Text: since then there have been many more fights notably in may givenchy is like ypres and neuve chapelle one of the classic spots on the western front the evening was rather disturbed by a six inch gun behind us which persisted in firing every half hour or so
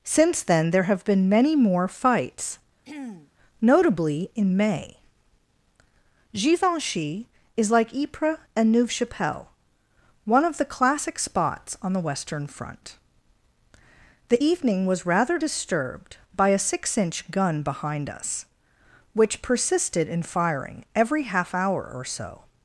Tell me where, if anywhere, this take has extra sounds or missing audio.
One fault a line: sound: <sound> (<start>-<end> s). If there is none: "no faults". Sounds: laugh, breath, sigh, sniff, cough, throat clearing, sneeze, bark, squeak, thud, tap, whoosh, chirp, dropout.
sound: throat clearing (2.8-3.3 s)